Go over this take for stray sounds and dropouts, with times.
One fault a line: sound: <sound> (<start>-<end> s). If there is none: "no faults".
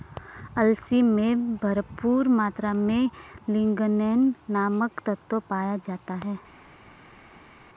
no faults